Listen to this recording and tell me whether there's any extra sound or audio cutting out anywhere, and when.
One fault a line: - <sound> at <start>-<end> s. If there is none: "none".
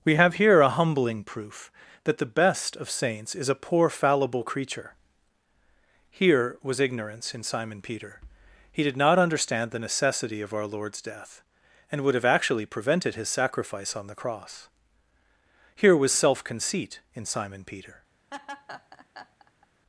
- laugh at 18.3-19.7 s